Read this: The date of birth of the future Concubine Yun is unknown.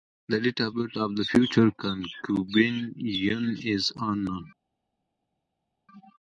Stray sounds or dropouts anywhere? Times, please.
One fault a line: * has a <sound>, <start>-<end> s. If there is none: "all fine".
all fine